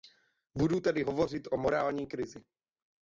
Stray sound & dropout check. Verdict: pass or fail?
pass